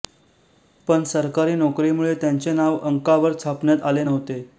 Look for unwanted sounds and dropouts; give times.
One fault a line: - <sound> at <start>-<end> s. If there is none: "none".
none